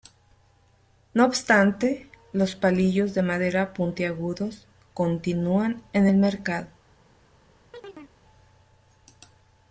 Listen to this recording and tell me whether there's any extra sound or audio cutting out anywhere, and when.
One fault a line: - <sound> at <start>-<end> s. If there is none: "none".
- chirp at 7.7-8.1 s